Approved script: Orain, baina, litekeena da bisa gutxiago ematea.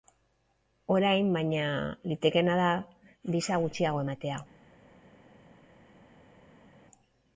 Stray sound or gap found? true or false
false